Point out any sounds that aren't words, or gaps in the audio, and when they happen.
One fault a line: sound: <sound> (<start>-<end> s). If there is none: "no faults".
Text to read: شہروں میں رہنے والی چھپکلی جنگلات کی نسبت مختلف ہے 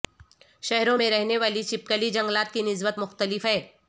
no faults